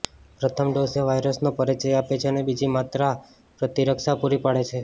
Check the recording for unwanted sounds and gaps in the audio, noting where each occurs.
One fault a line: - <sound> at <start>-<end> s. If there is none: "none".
none